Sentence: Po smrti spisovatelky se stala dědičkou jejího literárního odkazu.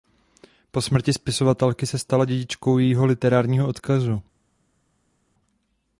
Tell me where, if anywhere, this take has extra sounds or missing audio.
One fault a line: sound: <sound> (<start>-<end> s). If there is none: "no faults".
no faults